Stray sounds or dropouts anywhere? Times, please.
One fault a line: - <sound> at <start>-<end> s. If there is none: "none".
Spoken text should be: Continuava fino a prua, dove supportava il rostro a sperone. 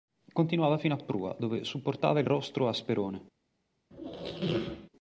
- squeak at 3.9-4.9 s